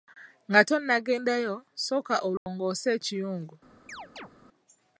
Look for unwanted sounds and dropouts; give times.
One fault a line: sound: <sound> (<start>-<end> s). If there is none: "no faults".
sound: dropout (2.4-2.5 s)
sound: chirp (3.9-4.3 s)